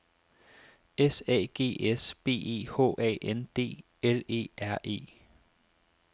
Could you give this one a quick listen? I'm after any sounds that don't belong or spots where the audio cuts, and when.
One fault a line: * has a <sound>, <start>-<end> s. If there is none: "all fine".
all fine